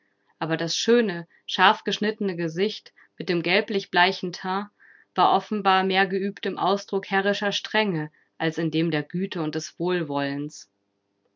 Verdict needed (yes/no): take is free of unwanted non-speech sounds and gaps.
yes